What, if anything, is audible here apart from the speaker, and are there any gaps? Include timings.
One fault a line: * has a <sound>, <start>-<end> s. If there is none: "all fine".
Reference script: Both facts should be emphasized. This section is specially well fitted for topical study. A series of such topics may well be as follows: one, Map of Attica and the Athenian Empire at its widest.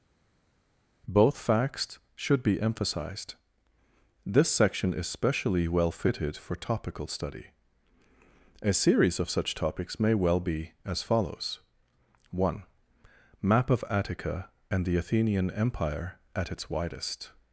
all fine